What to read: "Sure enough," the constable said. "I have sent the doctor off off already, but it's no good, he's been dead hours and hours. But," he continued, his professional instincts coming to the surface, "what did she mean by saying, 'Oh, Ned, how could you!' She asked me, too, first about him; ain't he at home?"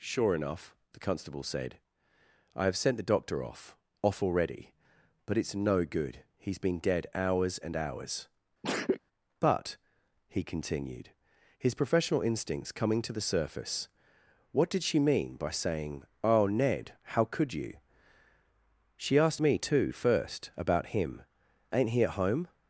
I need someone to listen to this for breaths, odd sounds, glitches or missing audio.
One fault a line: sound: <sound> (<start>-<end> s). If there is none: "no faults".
sound: sneeze (8.6-9.0 s)